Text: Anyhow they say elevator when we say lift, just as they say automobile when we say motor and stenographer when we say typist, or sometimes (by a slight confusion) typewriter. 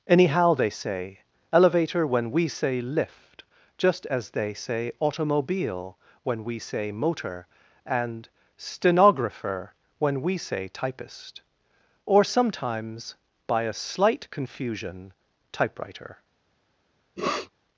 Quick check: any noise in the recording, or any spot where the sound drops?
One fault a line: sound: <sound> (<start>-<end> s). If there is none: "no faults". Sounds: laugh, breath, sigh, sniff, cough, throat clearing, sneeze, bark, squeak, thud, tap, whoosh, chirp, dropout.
sound: sniff (17.2-17.5 s)